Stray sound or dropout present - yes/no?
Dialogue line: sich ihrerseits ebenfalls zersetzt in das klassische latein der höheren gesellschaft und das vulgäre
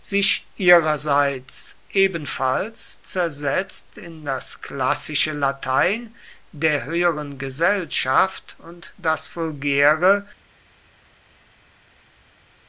no